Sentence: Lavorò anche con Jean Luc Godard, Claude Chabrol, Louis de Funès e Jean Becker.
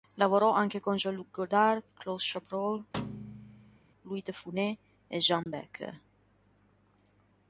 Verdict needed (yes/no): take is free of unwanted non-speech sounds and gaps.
no